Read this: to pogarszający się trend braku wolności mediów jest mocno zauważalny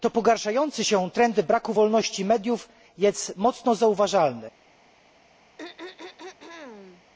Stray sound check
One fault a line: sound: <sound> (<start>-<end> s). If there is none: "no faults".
sound: throat clearing (5.6-7.0 s)